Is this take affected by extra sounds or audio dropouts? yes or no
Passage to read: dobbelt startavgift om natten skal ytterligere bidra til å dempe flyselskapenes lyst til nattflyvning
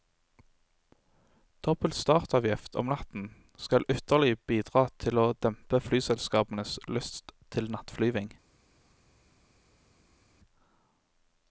no